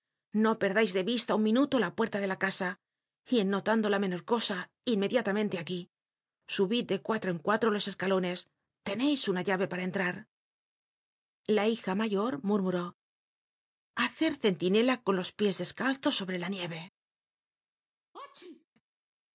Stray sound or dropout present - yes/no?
yes